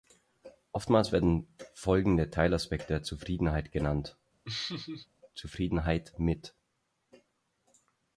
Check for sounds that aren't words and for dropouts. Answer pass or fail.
fail